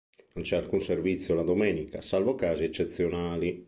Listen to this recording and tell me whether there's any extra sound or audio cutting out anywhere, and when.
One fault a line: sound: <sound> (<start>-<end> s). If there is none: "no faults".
no faults